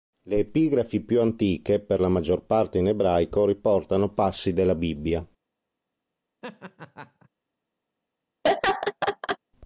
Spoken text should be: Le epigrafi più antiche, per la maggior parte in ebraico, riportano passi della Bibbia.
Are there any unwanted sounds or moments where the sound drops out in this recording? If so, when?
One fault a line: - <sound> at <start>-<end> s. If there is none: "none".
- laugh at 6.4-7.3 s
- laugh at 8.4-9.4 s